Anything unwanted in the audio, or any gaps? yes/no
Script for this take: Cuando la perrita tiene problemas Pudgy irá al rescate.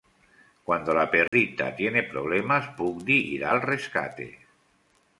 yes